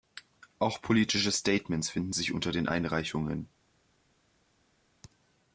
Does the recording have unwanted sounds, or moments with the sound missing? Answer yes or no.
no